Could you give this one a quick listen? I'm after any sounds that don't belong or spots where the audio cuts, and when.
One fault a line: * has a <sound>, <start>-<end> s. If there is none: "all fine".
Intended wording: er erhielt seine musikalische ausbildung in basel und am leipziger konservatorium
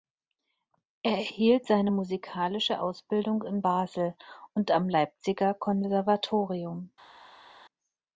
all fine